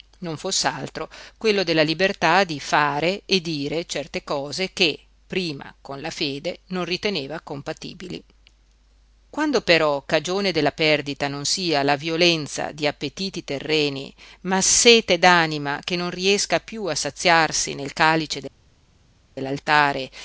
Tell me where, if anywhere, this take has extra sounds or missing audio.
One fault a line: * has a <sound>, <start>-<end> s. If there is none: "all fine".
all fine